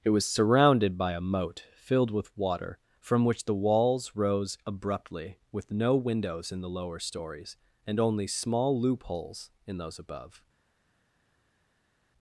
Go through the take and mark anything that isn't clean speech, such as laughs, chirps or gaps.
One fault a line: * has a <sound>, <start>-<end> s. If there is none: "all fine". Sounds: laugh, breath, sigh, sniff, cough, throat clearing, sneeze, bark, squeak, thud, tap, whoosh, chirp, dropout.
all fine